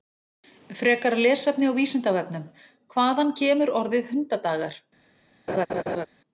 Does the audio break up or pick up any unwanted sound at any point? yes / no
yes